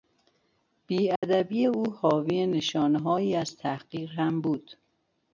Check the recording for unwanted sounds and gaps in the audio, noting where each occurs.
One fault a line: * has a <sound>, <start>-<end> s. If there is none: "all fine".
* has a dropout, 1.2-1.2 s